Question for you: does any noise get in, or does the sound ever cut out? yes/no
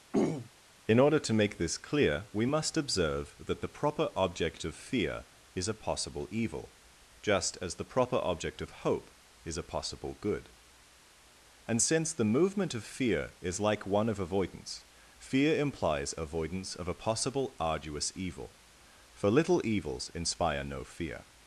yes